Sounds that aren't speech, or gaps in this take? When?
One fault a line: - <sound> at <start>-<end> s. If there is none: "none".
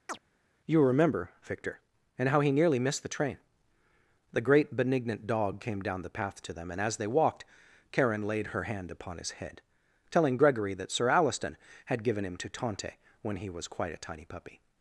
- chirp at 0.1-0.2 s